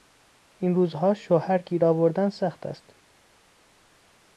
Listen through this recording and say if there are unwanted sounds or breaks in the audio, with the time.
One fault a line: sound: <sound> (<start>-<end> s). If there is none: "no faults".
no faults